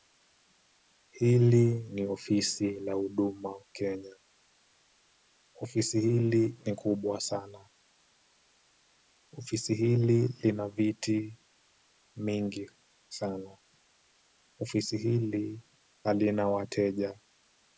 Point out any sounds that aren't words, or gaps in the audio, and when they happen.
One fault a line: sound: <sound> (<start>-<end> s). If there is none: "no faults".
no faults